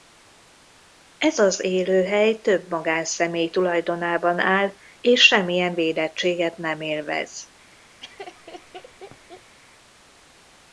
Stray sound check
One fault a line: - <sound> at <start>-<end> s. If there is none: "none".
- laugh at 8.0-9.6 s